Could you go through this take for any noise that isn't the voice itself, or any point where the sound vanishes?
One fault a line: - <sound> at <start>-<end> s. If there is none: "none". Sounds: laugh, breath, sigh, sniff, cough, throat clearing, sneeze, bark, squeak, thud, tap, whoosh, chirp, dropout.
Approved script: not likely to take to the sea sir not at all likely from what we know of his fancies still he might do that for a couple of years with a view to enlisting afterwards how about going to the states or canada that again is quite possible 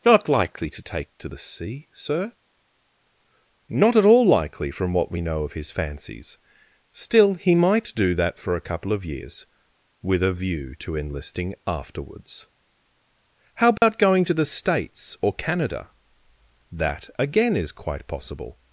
- dropout at 13.8-13.8 s